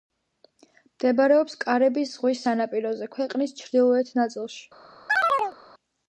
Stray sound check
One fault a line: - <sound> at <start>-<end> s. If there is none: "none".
- chirp at 5.1-5.6 s